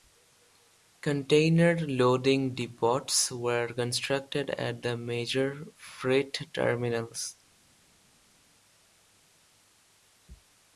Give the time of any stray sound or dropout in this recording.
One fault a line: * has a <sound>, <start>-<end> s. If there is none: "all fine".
all fine